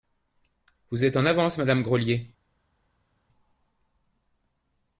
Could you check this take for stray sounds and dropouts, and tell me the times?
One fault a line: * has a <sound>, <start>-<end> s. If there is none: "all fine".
all fine